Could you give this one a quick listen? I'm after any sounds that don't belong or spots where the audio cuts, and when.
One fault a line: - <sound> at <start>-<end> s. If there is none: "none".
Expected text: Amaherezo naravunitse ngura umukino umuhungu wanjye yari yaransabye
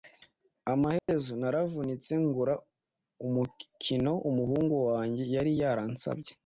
- dropout at 1.0-1.1 s